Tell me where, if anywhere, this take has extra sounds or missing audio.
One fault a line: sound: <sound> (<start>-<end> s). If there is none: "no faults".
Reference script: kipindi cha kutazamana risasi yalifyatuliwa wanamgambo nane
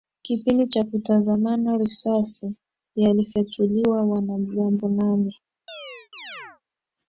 sound: chirp (5.7-6.6 s)